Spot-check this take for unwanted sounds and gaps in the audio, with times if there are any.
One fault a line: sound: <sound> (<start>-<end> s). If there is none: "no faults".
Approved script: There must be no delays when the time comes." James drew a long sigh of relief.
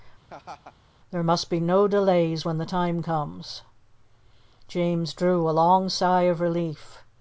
sound: laugh (0.3-0.8 s)